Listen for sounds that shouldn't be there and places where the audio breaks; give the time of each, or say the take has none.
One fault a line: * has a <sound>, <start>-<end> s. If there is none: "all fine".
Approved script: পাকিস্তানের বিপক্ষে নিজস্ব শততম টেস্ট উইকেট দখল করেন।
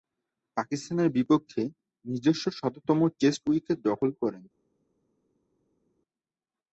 all fine